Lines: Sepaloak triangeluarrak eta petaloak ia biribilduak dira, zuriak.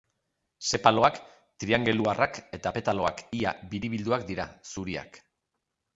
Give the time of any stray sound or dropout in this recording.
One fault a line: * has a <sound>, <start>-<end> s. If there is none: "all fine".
all fine